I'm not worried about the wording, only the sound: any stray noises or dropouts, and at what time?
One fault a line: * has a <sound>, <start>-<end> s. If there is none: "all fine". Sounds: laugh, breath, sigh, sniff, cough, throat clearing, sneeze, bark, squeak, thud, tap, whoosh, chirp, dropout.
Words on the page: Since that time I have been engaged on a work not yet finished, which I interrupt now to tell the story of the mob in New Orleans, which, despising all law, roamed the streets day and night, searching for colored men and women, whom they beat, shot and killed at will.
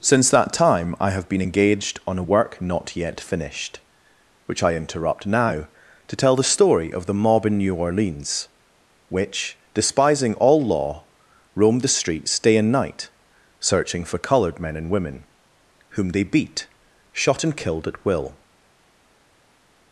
all fine